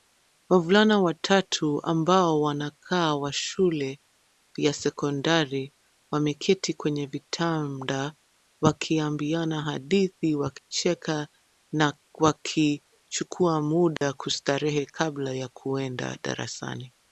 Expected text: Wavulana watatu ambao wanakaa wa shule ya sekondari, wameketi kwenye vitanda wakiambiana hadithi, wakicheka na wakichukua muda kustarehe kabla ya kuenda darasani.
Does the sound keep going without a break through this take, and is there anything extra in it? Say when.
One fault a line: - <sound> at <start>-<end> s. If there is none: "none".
- dropout at 10.6-10.7 s
- dropout at 14.0-14.0 s